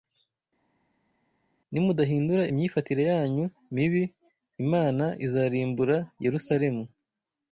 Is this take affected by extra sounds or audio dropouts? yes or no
no